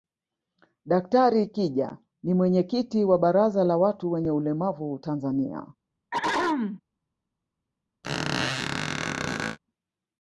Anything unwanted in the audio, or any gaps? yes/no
yes